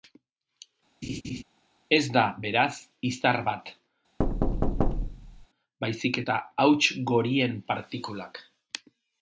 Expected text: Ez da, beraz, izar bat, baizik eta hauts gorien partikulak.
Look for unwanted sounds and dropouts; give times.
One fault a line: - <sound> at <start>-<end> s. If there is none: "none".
- laugh at 1.0-1.4 s
- thud at 4.2-5.5 s